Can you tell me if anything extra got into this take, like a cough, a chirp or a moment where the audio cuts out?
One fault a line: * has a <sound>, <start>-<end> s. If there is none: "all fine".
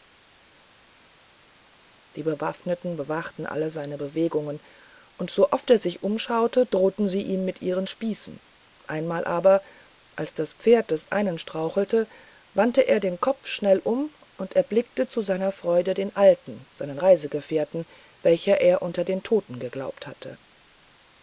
all fine